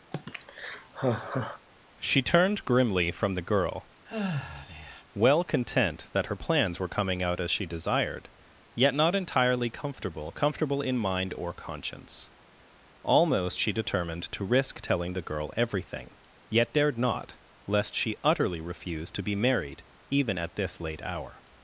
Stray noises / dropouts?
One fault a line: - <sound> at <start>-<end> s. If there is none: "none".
- sigh at 0.1-1.7 s
- sigh at 4.1-5.0 s